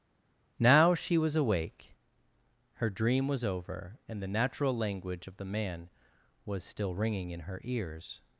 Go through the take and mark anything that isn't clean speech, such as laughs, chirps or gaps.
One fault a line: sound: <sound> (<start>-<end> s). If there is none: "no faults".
no faults